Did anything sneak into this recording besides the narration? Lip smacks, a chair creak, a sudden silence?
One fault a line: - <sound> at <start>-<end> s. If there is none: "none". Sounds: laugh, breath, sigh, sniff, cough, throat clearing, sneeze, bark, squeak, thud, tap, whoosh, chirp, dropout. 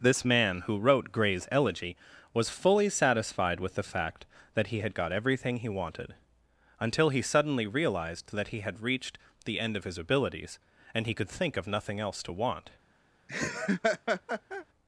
- laugh at 13.3-14.7 s